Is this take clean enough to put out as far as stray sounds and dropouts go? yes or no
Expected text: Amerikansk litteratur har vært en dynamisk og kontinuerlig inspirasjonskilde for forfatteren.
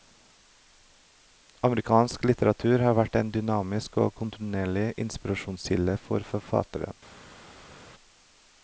yes